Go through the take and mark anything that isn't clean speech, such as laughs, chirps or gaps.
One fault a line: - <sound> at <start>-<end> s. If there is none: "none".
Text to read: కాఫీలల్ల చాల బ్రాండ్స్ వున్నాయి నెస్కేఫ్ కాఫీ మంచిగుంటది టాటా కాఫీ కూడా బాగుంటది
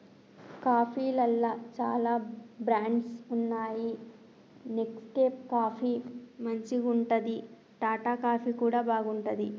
none